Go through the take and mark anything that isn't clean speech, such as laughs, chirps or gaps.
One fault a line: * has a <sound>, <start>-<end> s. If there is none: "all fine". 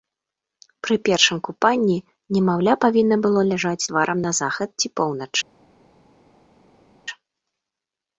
all fine